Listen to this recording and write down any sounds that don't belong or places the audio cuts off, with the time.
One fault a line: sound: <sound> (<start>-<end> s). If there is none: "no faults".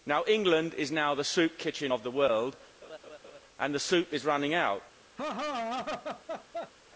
sound: laugh (2.8-3.4 s)
sound: laugh (5.2-6.7 s)